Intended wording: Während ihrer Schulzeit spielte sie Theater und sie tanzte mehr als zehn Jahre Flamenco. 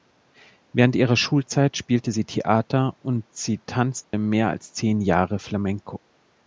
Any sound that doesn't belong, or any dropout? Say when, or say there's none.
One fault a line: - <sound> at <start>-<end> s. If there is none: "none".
- dropout at 4.0-4.1 s